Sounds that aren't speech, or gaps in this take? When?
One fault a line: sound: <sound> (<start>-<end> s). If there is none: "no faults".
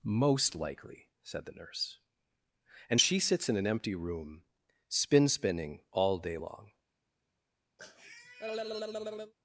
sound: cough (7.8-9.3 s)